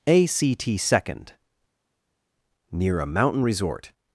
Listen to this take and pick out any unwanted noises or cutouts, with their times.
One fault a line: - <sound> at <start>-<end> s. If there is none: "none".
none